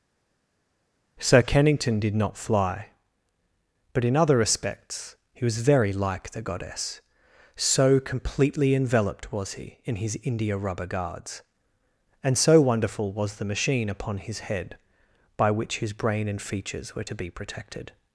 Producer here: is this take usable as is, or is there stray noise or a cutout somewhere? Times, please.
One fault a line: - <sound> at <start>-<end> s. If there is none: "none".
none